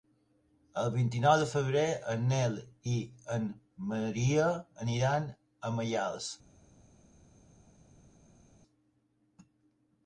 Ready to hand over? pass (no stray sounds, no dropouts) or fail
pass